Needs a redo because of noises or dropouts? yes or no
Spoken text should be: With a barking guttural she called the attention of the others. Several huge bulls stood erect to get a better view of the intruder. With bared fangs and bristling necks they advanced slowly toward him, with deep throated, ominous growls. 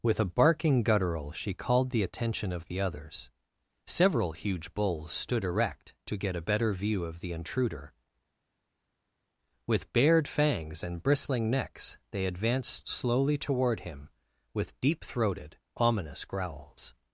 no